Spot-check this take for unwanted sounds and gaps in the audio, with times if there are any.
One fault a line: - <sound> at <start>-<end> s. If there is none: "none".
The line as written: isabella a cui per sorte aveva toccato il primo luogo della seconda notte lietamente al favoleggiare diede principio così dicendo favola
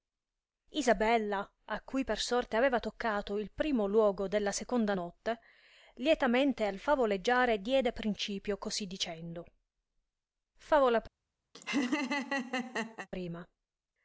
- laugh at 11.5-13.1 s